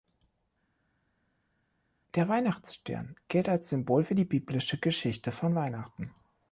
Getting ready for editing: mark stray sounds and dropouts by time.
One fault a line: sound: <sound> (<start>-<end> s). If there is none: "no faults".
no faults